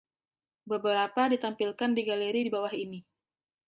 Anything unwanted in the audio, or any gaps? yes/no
no